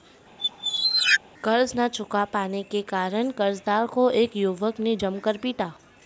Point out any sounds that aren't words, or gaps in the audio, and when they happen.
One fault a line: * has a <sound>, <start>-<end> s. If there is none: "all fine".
* has a squeak, 0.4-1.2 s